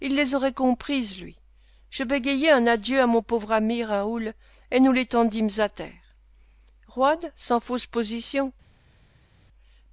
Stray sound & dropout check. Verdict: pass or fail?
pass